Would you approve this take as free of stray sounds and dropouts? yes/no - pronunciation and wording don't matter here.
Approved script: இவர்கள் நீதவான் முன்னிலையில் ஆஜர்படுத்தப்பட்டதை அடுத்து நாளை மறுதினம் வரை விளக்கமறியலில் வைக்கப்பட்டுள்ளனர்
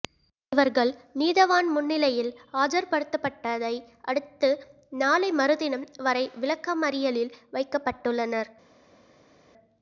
yes